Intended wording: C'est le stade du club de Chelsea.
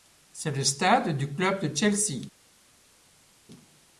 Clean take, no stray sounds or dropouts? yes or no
yes